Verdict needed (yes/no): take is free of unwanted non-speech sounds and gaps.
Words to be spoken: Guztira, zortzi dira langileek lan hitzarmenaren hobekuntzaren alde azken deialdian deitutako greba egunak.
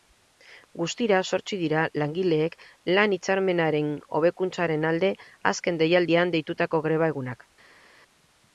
yes